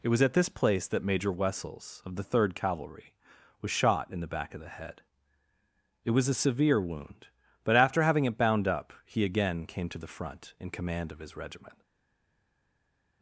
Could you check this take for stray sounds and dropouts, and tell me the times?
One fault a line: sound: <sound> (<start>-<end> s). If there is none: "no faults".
no faults